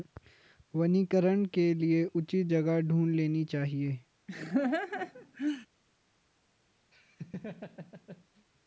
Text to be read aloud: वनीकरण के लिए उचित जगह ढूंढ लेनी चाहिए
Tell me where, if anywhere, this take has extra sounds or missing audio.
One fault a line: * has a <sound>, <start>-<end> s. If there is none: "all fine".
* has a laugh, 4.3-5.7 s
* has a laugh, 6.9-8.5 s